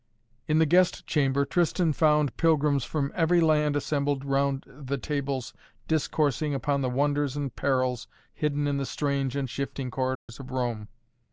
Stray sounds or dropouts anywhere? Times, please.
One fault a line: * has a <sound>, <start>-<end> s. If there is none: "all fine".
* has a dropout, 10.2-10.3 s